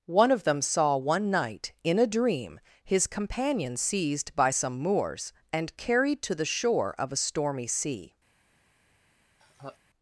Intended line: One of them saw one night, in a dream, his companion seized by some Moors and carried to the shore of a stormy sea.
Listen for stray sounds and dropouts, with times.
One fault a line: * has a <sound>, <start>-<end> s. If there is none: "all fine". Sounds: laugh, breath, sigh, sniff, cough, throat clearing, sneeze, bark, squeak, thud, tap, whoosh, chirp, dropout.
* has a laugh, 9.4-9.8 s